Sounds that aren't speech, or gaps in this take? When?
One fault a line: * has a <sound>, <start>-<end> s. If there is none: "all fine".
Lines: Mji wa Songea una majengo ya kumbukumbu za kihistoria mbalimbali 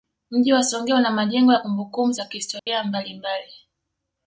* has a dropout, 2.6-2.7 s